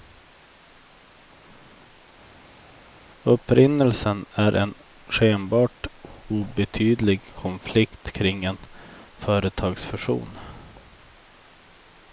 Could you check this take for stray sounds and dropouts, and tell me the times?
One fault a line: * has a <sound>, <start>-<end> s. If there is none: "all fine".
all fine